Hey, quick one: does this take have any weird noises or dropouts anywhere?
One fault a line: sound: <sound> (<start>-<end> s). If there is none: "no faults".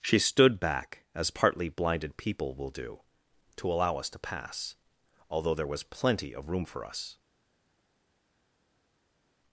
no faults